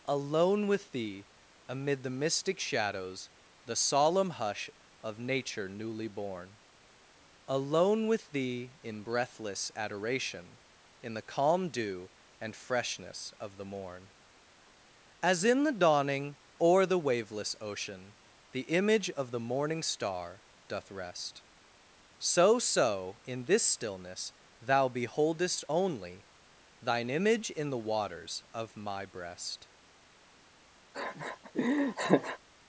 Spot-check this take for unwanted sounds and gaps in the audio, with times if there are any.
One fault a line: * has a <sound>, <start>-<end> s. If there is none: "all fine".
* has a laugh, 30.9-32.4 s